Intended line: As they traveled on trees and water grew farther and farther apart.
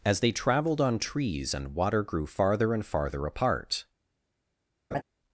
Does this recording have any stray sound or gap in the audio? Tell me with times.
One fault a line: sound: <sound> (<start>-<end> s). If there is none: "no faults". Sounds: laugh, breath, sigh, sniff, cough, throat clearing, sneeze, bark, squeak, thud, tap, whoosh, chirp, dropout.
sound: laugh (4.9-5.0 s)